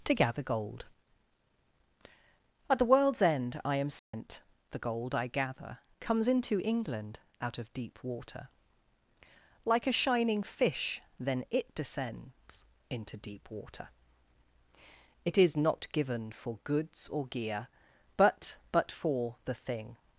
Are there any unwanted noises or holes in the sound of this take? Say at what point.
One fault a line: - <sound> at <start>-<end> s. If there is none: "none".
- dropout at 4.0-4.1 s